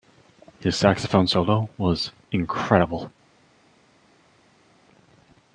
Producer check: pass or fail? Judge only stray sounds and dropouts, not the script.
pass